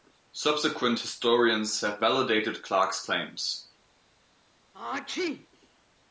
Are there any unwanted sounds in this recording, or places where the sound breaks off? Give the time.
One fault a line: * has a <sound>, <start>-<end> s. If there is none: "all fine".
* has a sneeze, 4.7-5.5 s